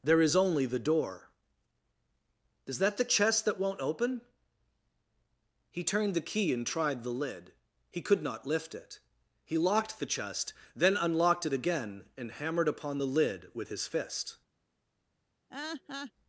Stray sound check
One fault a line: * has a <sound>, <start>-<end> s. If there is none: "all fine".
* has a laugh, 15.5-16.1 s